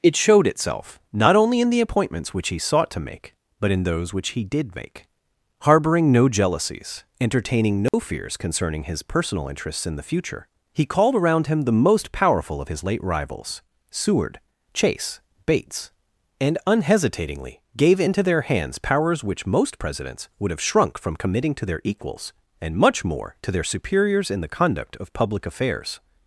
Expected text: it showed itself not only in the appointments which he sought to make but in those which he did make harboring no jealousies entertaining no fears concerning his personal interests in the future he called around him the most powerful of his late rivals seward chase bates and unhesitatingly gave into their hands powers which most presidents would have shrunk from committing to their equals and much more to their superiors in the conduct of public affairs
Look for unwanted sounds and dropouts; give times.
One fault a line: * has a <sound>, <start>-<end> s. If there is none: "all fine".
* has a dropout, 7.9-7.9 s